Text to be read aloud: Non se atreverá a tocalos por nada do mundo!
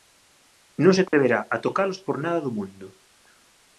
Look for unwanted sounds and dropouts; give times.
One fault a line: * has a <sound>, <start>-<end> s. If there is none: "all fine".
* has a dropout, 1.1-1.1 s